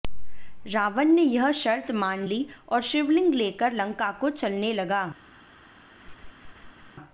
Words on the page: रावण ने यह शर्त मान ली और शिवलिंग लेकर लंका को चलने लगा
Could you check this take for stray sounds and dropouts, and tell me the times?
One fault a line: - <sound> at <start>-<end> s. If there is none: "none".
- laugh at 6.0-6.9 s